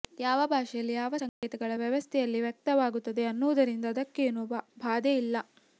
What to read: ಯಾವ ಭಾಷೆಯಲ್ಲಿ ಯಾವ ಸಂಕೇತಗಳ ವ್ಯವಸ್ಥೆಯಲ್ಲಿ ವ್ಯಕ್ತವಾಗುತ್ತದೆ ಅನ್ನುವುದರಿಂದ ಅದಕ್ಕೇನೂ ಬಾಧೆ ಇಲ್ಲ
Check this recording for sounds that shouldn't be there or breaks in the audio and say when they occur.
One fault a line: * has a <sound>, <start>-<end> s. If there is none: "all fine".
* has a dropout, 1.3-1.4 s